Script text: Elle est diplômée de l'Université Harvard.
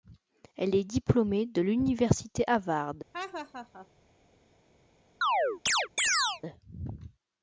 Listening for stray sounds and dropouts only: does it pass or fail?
fail